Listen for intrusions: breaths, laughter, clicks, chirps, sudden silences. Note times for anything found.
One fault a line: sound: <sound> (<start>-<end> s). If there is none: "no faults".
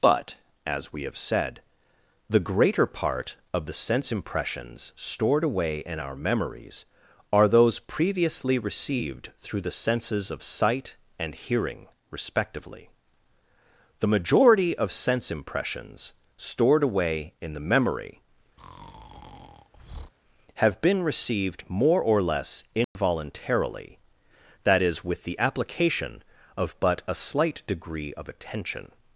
sound: breath (18.6-20.1 s)
sound: dropout (22.8-23.0 s)